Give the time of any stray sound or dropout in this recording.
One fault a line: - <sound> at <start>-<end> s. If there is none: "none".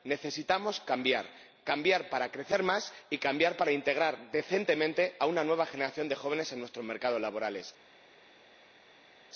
none